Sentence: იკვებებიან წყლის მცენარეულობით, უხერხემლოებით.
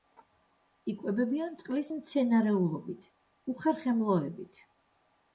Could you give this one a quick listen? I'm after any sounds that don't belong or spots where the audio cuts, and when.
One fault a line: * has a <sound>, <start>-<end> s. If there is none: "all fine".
all fine